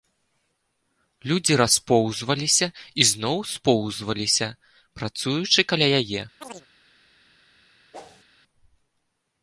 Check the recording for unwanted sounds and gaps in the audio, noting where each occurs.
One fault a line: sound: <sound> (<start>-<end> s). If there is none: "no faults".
sound: chirp (6.4-6.7 s)
sound: whoosh (7.9-8.2 s)